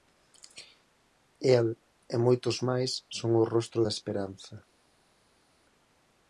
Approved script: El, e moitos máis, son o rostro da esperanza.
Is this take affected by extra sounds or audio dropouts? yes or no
no